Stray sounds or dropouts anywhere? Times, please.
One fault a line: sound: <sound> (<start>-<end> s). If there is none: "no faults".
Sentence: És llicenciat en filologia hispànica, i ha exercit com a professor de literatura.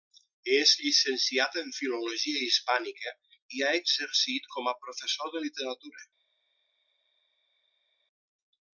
no faults